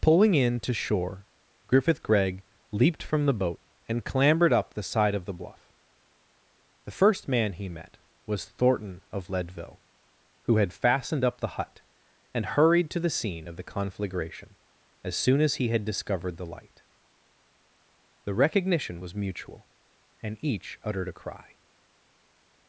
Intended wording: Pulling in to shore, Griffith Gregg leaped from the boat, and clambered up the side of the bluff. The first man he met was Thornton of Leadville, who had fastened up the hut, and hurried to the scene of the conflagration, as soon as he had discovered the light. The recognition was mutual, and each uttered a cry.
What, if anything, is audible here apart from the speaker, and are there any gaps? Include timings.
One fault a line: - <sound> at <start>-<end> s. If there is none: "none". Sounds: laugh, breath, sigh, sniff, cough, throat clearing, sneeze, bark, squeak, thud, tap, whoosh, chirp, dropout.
none